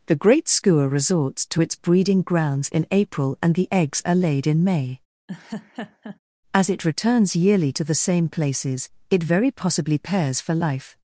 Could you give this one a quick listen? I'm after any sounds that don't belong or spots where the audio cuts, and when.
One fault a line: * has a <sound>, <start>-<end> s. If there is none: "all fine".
* has a laugh, 5.3-6.2 s